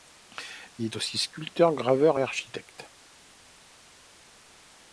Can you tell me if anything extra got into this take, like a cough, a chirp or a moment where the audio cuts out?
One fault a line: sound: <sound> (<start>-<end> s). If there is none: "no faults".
no faults